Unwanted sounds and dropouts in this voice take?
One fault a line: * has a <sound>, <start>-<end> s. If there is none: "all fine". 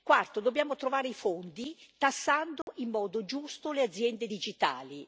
* has a dropout, 2.6-2.7 s